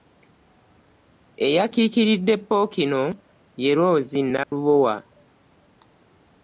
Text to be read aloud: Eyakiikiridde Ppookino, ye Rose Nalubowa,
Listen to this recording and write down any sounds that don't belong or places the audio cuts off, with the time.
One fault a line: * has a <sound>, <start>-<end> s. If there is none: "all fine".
* has a dropout, 4.4-4.5 s